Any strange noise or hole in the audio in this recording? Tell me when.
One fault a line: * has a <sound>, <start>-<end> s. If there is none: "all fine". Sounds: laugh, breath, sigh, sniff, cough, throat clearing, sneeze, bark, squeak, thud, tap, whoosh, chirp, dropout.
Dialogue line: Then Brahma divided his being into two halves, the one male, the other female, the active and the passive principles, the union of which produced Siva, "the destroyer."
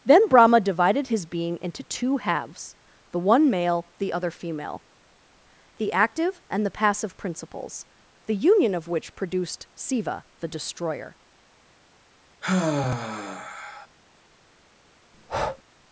* has a sigh, 12.4-13.9 s
* has a breath, 15.1-15.6 s